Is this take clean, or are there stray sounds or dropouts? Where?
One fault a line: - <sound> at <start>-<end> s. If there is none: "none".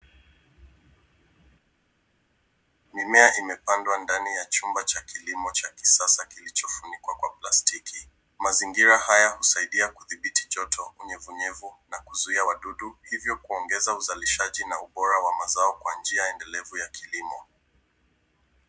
none